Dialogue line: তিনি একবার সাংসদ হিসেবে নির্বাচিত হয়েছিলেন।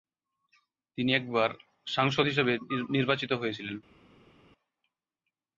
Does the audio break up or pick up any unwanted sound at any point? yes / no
no